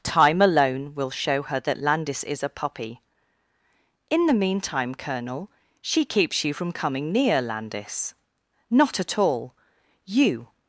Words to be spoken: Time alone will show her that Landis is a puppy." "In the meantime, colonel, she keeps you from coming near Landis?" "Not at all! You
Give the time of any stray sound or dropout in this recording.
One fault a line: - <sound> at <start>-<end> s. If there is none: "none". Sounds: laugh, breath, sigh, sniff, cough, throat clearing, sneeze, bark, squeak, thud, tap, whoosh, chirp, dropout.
none